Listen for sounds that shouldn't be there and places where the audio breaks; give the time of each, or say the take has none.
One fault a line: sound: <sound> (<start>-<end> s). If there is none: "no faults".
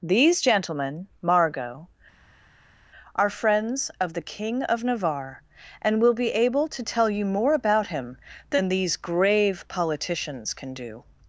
no faults